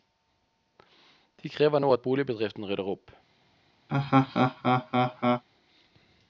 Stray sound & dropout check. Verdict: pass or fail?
fail